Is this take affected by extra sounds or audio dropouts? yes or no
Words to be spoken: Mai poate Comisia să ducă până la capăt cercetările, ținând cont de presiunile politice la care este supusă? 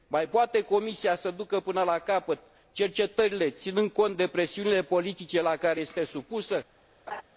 yes